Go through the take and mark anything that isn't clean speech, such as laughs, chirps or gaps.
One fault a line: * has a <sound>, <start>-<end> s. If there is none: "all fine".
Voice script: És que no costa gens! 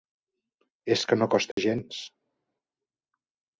* has a dropout, 1.5-1.6 s